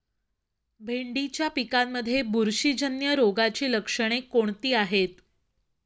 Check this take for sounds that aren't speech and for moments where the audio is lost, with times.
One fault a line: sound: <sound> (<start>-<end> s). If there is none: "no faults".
no faults